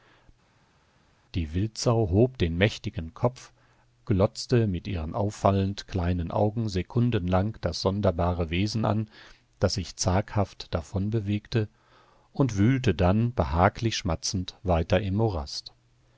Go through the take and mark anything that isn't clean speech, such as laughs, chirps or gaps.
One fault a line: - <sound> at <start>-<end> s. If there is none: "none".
none